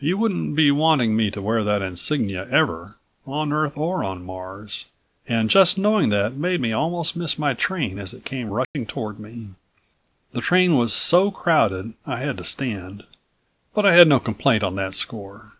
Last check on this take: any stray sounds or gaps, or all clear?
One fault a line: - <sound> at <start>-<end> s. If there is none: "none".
- dropout at 8.6-8.8 s